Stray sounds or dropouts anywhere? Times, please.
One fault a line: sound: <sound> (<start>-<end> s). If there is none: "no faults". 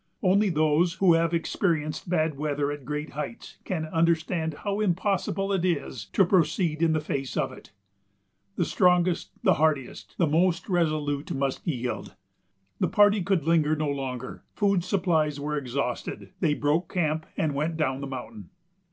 no faults